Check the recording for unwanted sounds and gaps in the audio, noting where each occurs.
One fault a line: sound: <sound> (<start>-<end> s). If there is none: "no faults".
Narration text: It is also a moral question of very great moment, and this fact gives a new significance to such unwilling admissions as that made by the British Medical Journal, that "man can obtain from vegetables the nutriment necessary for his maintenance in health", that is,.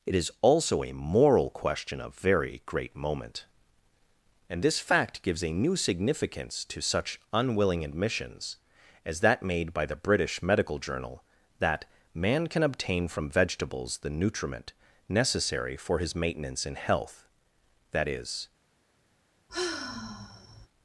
sound: sigh (19.5-20.7 s)